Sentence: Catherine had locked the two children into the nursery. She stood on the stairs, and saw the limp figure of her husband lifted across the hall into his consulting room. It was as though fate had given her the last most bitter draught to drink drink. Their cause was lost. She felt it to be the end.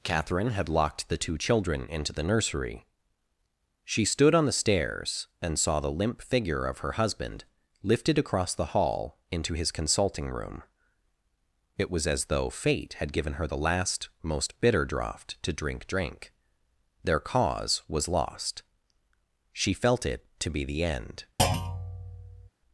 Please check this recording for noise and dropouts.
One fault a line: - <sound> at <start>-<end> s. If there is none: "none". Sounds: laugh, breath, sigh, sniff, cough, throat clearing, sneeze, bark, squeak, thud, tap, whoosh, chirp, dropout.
- thud at 21.4-22.5 s